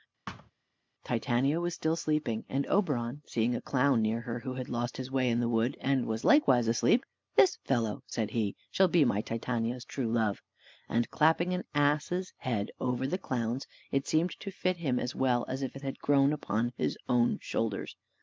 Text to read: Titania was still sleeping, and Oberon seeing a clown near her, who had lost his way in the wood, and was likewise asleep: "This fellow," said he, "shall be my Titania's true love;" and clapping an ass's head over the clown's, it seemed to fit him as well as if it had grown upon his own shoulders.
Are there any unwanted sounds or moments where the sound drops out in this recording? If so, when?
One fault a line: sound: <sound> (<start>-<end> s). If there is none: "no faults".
sound: thud (0.3-0.5 s)